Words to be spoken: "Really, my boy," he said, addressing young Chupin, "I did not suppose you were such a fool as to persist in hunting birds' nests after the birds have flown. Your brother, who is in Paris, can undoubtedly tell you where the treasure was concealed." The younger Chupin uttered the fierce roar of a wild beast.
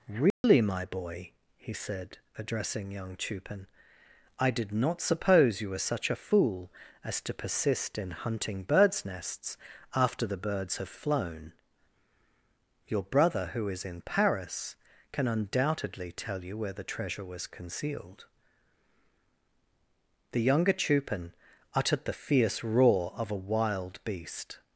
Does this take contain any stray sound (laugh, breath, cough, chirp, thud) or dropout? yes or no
yes